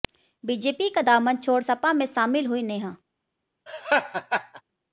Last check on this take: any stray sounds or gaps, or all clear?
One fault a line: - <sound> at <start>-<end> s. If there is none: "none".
- laugh at 3.7-4.6 s